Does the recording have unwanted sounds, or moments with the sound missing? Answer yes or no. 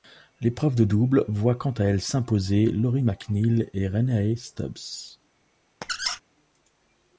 yes